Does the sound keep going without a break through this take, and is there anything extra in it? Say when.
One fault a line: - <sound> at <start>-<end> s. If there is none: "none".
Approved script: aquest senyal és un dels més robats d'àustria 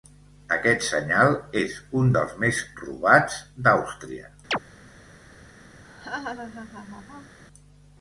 - chirp at 4.5-4.6 s
- laugh at 5.8-7.4 s